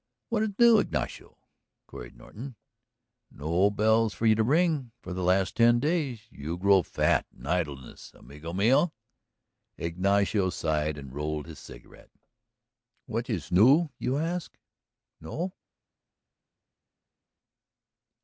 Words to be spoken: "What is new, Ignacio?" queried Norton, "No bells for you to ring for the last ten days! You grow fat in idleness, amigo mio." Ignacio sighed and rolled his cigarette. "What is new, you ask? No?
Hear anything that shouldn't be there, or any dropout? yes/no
no